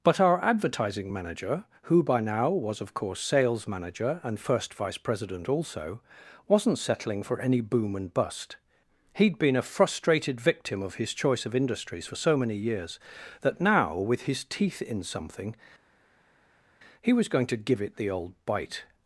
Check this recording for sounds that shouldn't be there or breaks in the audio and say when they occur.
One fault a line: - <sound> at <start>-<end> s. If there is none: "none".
none